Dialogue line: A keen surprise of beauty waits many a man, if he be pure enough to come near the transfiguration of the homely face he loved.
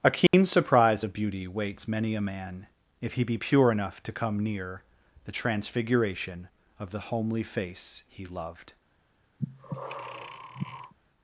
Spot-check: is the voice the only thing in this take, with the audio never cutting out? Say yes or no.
no